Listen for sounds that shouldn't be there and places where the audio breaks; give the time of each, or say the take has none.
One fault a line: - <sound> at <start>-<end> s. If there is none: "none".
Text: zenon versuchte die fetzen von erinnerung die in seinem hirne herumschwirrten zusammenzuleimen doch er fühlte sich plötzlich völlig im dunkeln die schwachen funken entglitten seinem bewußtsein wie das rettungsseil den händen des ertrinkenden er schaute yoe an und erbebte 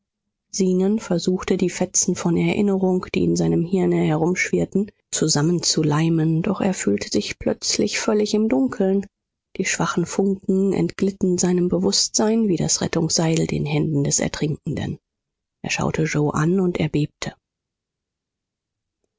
none